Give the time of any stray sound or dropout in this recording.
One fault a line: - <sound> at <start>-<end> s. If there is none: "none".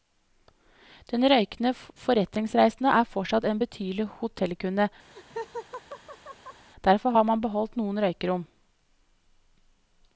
- laugh at 5.1-6.7 s